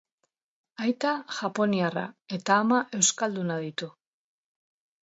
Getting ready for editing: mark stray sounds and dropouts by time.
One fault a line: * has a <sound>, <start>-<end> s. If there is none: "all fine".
all fine